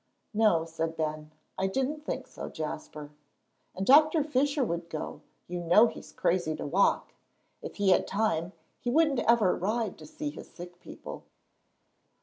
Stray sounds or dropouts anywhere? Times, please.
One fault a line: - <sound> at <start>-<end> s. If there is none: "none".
none